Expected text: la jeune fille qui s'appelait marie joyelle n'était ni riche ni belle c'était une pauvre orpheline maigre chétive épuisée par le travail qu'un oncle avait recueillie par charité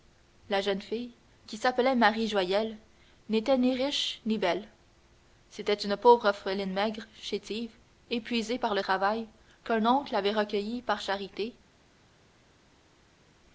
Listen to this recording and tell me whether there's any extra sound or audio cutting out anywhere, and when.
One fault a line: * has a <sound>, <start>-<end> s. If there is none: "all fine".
all fine